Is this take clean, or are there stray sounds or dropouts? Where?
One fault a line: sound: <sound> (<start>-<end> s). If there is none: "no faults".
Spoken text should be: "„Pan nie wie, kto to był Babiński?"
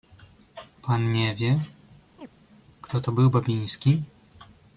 sound: chirp (2.2-2.3 s)